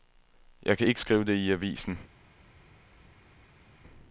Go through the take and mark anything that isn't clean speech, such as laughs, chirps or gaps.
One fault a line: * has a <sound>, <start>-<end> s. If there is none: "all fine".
all fine